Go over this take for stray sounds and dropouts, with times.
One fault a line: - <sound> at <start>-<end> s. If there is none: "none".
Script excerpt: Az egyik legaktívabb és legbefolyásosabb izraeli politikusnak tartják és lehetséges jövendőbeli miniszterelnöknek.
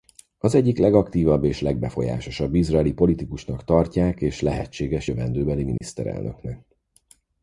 - dropout at 5.8-5.8 s